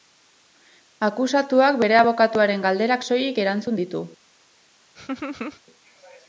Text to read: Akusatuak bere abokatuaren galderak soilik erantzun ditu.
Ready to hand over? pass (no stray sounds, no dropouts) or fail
fail